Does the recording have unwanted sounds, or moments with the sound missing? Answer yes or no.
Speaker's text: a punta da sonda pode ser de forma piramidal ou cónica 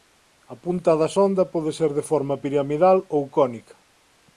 no